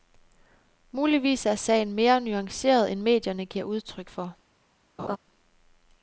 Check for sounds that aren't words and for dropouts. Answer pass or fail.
fail